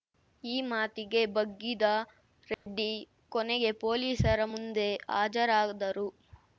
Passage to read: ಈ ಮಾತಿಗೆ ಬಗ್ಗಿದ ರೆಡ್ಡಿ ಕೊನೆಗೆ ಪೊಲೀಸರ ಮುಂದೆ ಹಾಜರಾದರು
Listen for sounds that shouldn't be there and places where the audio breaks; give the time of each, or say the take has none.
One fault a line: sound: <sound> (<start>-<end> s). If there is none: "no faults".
sound: dropout (2.5-2.7 s)